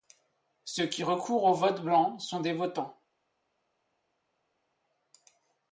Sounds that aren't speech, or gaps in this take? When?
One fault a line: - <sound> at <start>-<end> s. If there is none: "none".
none